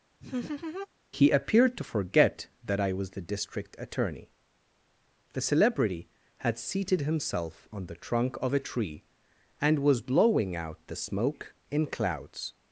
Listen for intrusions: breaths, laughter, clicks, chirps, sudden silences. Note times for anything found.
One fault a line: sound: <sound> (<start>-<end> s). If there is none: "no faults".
sound: laugh (0.2-0.9 s)